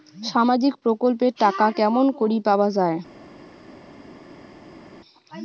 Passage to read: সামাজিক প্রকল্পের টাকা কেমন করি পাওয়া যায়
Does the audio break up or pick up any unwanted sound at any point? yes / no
no